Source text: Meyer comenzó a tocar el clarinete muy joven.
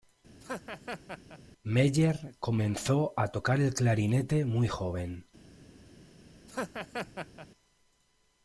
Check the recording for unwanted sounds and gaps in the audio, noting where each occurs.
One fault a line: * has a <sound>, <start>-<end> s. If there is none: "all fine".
* has a laugh, 0.4-1.4 s
* has a laugh, 6.5-7.5 s